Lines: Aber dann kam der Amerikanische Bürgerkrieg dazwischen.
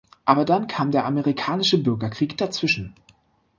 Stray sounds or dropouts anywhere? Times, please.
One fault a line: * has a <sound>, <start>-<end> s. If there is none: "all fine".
all fine